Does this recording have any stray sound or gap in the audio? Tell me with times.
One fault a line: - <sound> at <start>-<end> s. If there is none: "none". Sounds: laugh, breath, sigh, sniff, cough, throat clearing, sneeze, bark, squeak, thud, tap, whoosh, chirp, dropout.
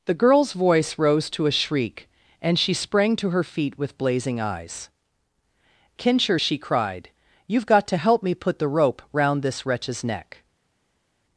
none